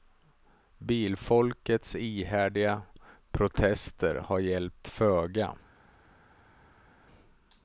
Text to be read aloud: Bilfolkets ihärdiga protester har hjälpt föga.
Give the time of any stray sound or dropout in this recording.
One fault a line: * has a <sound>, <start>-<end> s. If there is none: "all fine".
all fine